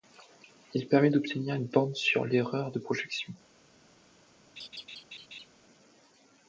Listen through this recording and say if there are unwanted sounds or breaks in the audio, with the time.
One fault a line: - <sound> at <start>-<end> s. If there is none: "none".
- laugh at 4.6-5.5 s